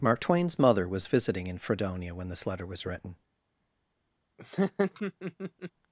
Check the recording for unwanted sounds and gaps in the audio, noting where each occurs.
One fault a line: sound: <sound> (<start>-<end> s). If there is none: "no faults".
sound: laugh (4.4-5.7 s)